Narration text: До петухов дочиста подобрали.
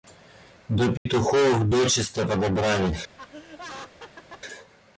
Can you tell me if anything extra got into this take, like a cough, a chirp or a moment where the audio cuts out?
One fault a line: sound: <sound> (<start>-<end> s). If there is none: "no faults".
sound: dropout (1.0-1.1 s)
sound: laugh (3.2-4.4 s)